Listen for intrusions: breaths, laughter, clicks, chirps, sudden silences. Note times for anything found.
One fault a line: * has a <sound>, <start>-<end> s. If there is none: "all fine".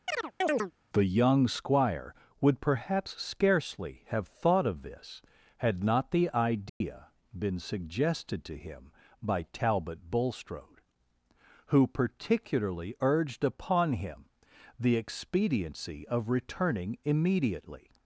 * has a chirp, 0.1-0.7 s
* has a dropout, 6.7-6.8 s